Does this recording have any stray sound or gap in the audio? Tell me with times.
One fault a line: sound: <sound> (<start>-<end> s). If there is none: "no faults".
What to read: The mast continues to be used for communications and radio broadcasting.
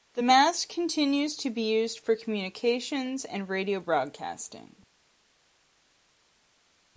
no faults